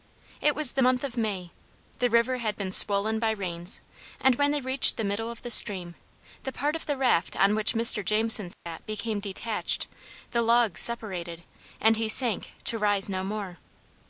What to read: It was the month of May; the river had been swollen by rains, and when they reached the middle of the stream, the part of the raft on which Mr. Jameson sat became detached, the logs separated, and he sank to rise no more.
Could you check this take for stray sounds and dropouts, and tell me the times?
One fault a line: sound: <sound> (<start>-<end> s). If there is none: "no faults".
sound: dropout (8.5-8.7 s)